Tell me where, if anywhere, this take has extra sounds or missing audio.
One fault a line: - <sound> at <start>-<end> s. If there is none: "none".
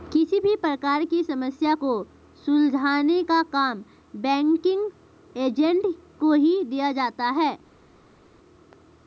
none